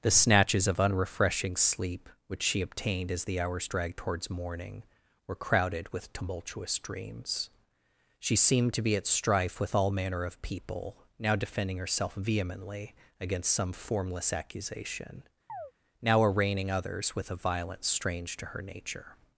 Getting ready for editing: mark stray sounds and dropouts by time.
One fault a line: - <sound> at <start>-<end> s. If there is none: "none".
- chirp at 15.5-15.7 s